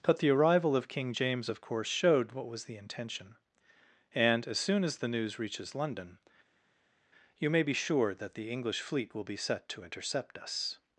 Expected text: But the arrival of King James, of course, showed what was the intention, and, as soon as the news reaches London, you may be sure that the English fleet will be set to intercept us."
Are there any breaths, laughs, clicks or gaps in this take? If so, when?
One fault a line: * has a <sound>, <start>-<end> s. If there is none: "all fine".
all fine